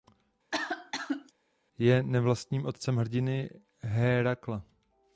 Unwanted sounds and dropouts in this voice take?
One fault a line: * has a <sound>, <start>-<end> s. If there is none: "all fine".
* has a cough, 0.5-1.3 s